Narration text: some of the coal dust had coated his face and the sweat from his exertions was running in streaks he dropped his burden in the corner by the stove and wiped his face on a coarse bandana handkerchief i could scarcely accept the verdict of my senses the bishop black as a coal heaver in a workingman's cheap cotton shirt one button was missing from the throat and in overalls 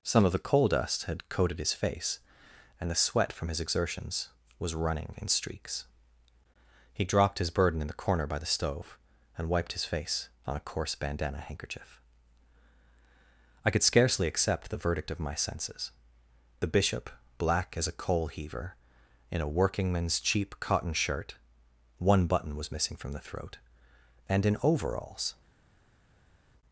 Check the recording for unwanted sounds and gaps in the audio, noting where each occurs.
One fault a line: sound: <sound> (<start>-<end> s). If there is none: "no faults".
no faults